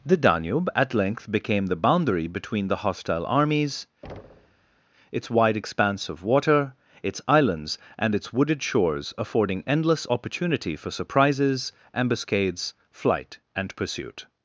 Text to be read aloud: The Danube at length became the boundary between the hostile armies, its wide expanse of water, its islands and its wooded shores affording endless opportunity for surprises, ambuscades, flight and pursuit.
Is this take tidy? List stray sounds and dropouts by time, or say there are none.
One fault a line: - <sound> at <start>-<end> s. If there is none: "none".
- thud at 4.0-4.8 s